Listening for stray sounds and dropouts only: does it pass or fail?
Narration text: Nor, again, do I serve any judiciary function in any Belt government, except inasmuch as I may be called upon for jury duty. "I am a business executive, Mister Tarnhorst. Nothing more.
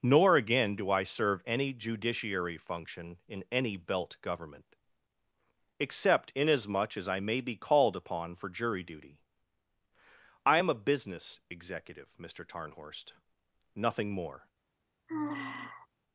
fail